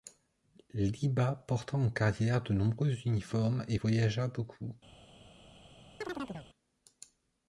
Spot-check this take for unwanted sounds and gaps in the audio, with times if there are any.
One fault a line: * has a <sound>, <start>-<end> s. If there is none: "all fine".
* has a chirp, 6.0-6.5 s